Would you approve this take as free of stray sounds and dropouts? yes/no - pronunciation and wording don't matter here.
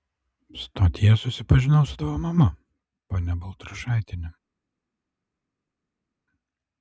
yes